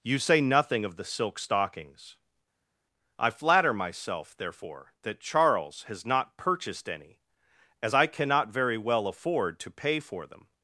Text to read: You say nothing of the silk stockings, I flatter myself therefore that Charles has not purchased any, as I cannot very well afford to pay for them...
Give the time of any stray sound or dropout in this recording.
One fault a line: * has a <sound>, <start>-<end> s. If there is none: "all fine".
all fine